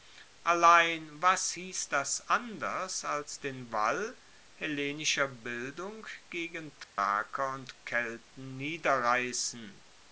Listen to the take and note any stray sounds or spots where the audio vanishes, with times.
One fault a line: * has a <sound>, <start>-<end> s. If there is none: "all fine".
* has a dropout, 6.8-7.0 s